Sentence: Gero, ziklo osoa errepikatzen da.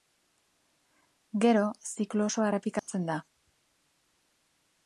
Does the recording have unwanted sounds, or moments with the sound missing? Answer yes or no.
yes